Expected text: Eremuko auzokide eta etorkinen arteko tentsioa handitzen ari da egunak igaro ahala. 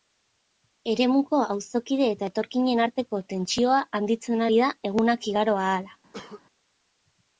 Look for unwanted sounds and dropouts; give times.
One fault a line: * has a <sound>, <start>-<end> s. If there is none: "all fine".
* has a cough, 6.1-6.4 s